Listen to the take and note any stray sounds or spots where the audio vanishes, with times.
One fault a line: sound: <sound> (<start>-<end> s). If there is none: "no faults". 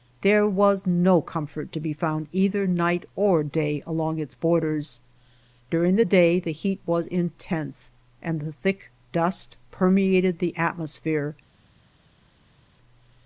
no faults